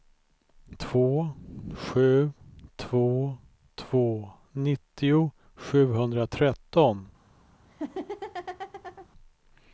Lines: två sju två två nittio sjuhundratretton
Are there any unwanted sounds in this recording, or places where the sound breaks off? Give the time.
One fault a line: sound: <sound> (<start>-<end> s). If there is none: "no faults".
sound: laugh (7.7-9.1 s)